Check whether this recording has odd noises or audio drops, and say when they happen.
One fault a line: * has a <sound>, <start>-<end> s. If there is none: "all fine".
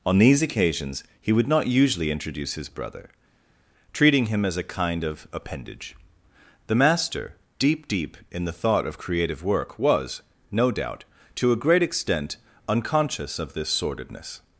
all fine